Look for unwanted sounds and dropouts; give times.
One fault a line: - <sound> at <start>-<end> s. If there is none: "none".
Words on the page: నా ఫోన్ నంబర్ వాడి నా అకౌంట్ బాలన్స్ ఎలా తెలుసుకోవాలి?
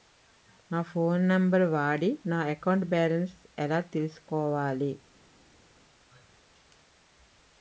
none